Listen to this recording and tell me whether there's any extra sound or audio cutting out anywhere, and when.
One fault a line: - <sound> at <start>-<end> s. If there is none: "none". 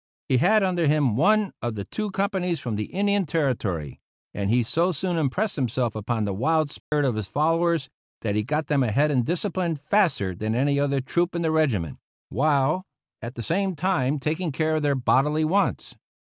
- dropout at 6.8-6.9 s